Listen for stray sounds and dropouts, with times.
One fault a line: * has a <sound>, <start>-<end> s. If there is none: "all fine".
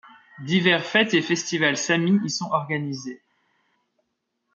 all fine